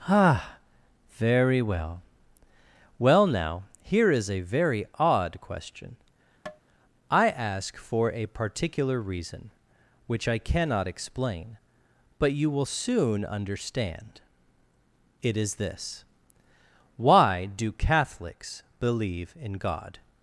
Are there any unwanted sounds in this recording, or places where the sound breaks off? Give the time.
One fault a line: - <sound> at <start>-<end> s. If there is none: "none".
- tap at 6.5-6.6 s